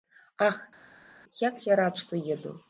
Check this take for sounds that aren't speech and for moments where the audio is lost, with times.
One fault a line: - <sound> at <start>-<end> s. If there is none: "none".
none